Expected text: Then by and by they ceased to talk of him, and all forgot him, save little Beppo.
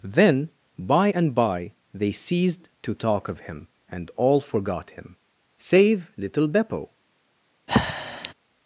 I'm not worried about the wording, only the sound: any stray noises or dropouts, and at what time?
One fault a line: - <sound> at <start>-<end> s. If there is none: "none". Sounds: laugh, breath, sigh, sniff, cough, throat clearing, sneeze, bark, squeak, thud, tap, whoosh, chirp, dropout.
- breath at 7.7-8.3 s